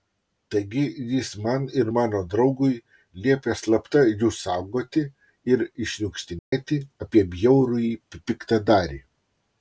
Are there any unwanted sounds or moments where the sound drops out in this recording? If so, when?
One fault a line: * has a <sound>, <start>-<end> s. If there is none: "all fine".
* has a dropout, 6.4-6.5 s